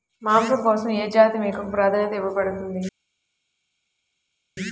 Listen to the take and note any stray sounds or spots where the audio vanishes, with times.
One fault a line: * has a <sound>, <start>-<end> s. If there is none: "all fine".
all fine